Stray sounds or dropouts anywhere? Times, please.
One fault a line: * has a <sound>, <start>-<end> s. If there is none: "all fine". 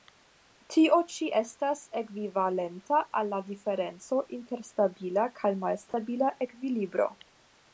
* has a dropout, 5.9-5.9 s